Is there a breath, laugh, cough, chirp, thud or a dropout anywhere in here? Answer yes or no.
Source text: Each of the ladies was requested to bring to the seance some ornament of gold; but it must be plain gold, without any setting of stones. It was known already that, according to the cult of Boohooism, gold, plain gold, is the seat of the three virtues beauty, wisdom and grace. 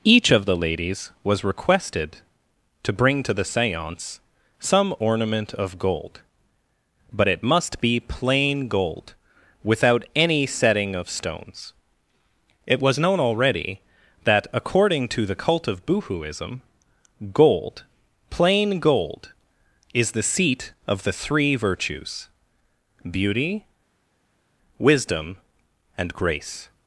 no